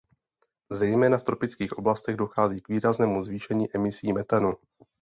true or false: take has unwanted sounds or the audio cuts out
false